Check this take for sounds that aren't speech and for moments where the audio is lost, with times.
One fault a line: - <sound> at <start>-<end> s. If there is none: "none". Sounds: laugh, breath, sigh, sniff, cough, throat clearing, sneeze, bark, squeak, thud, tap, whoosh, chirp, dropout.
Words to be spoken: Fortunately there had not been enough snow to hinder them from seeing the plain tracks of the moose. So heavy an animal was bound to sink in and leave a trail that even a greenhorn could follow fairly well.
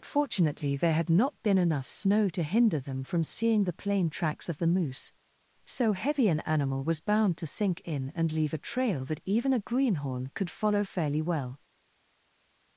none